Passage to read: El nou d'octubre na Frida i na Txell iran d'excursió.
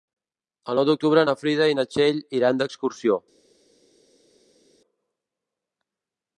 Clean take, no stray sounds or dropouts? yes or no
yes